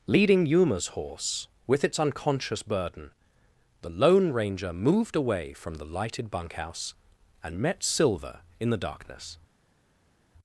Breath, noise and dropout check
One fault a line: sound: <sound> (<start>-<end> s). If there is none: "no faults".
no faults